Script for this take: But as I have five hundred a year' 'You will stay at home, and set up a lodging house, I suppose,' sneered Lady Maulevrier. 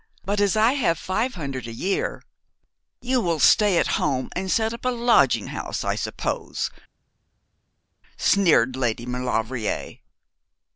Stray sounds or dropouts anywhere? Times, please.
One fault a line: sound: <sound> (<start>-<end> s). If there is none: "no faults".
no faults